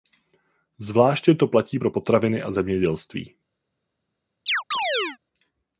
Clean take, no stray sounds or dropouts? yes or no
no